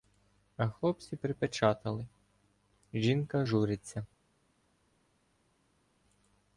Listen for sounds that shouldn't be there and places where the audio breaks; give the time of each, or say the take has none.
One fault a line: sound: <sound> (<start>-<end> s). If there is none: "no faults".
no faults